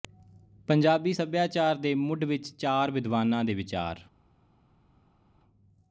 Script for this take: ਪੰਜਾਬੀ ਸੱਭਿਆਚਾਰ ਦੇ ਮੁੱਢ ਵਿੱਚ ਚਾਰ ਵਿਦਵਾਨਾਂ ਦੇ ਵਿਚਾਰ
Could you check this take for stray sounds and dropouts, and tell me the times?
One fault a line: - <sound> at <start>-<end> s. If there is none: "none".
none